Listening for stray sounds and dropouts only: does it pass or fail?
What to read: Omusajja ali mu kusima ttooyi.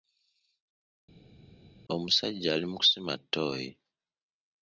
pass